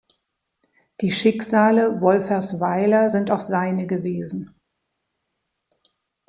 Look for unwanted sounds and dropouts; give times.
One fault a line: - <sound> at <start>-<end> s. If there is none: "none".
none